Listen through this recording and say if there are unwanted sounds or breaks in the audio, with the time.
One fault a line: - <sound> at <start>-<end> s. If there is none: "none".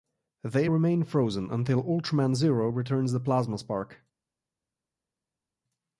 none